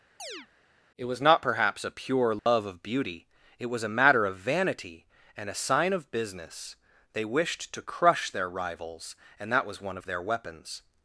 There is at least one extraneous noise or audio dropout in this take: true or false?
true